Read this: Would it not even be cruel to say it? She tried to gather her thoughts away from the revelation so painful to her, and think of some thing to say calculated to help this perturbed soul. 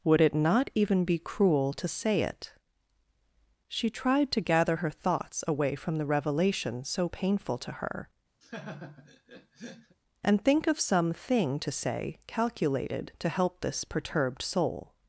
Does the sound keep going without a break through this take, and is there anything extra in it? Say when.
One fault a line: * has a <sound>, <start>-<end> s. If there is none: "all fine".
* has a laugh, 8.4-10.0 s